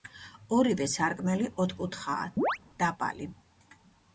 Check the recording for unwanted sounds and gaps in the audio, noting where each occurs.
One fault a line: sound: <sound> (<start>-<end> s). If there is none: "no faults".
sound: chirp (2.4-2.6 s)